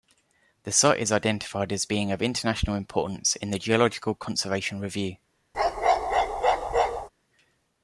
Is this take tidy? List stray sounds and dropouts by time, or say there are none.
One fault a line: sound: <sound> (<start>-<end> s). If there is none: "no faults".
sound: bark (5.5-7.1 s)